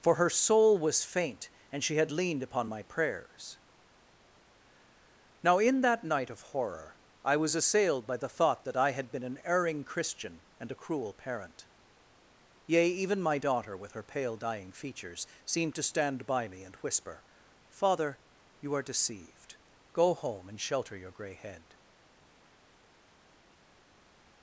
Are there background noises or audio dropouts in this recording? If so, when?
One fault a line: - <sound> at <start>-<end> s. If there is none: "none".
none